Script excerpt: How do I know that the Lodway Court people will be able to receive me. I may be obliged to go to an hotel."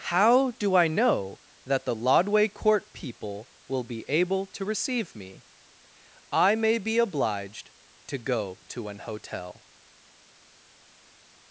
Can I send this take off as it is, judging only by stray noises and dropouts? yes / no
yes